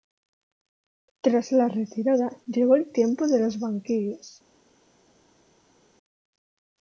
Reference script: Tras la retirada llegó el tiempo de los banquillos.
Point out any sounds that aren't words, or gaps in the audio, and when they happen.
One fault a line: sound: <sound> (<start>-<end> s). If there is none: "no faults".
no faults